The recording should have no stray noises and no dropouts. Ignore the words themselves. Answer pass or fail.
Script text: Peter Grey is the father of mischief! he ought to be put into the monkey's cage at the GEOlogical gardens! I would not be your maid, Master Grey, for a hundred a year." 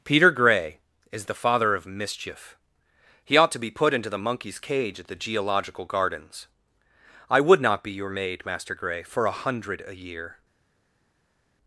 pass